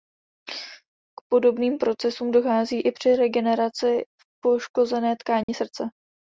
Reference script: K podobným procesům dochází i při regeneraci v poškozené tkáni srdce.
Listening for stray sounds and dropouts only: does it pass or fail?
fail